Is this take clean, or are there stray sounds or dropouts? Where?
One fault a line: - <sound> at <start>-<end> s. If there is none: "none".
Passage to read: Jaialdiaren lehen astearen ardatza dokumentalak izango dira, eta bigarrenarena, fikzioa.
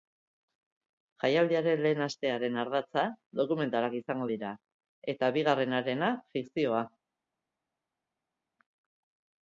none